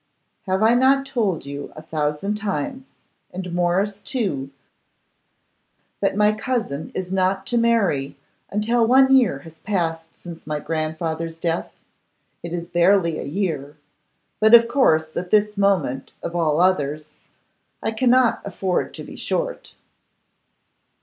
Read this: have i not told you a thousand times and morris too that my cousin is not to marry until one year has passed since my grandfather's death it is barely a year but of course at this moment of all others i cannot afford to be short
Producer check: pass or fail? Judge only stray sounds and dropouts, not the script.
pass